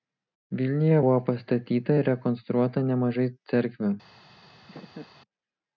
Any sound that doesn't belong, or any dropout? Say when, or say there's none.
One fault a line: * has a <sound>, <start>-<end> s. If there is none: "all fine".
* has a laugh, 4.7-5.1 s